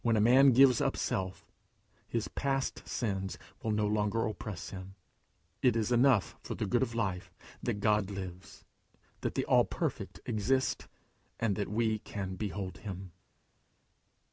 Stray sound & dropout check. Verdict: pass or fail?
pass